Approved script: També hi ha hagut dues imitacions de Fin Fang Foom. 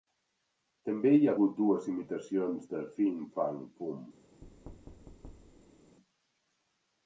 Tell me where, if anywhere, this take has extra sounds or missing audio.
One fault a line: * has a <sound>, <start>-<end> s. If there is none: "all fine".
* has a thud, 4.4-6.0 s